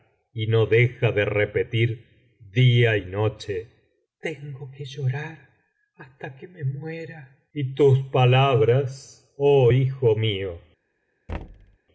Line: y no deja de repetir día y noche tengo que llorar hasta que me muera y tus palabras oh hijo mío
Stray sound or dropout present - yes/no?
yes